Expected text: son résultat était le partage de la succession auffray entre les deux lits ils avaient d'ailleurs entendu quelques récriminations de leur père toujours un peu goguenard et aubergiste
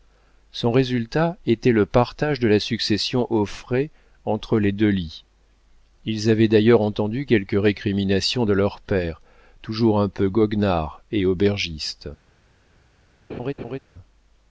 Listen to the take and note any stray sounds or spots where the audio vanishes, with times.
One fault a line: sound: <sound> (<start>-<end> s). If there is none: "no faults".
sound: laugh (13.3-13.8 s)